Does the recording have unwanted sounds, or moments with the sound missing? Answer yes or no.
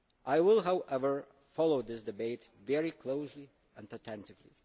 no